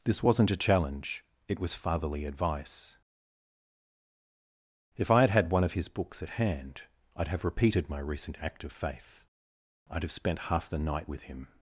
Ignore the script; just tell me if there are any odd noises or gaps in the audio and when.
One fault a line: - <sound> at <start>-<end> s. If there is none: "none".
none